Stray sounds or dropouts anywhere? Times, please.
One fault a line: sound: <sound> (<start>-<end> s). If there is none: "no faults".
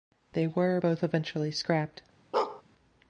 sound: bark (2.3-2.6 s)